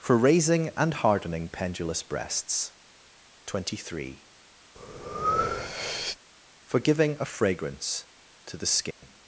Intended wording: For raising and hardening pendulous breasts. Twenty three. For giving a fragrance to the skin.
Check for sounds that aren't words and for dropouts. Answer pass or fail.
fail